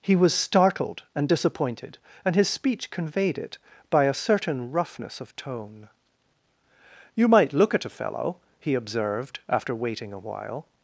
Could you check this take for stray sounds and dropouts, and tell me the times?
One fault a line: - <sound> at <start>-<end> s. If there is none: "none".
none